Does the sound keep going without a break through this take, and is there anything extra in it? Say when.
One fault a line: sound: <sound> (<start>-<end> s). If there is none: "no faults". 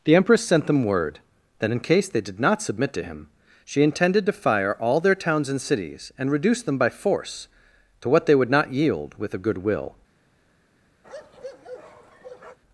sound: bark (11.0-12.6 s)